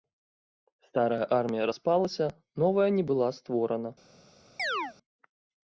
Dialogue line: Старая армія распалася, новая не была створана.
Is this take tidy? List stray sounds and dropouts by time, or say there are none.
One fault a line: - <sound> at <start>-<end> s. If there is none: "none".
- chirp at 4.6-4.9 s